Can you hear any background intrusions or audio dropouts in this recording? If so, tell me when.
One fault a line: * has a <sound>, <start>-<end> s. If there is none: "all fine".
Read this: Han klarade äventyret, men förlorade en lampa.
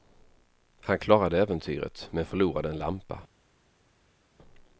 all fine